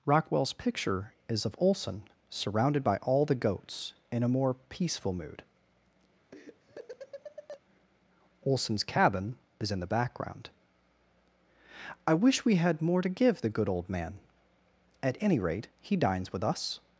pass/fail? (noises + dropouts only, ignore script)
fail